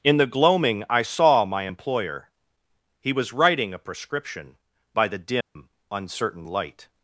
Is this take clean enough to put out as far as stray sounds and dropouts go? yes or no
no